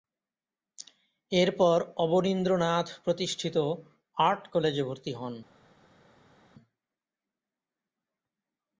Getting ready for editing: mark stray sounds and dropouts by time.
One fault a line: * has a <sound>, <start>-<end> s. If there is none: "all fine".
all fine